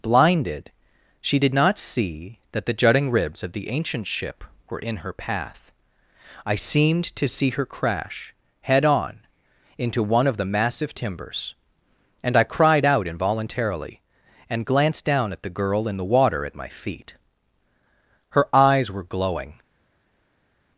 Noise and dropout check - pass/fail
pass